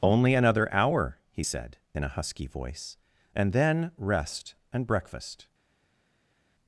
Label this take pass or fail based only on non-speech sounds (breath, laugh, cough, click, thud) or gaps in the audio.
pass